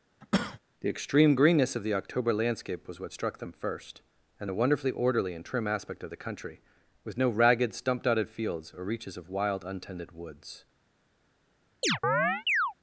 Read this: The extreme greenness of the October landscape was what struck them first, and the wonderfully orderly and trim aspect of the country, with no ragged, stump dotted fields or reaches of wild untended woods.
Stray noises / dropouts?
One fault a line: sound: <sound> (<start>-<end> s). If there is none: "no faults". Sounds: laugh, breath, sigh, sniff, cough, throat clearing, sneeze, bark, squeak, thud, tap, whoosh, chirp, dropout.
sound: cough (0.2-0.6 s)
sound: chirp (11.8-12.7 s)